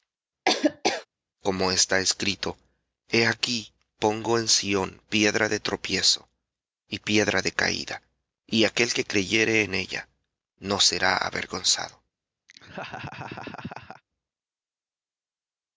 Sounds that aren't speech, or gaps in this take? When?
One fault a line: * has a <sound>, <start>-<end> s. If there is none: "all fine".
* has a laugh, 0.5-1.1 s
* has a laugh, 12.5-14.0 s